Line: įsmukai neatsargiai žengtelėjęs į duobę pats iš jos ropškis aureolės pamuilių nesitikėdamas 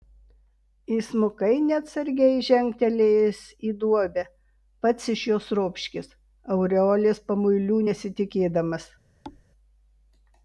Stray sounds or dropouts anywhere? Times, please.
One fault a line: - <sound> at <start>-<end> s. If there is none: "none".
- thud at 9.2-9.4 s